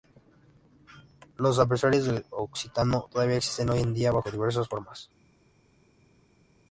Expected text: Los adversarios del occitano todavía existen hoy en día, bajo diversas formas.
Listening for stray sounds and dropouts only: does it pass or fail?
pass